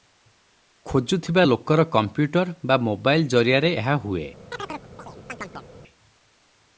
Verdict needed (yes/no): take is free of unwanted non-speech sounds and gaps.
no